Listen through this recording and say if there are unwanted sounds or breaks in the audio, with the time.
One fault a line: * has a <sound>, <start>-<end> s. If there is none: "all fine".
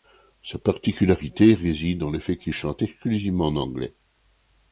all fine